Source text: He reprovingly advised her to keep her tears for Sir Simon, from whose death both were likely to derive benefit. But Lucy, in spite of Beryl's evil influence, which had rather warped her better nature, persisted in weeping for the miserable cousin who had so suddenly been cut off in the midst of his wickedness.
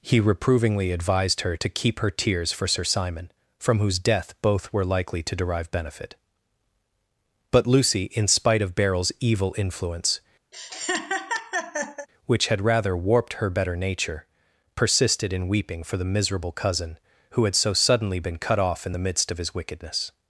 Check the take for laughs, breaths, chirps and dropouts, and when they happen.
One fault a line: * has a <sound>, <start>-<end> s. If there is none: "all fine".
* has a laugh, 10.5-12.1 s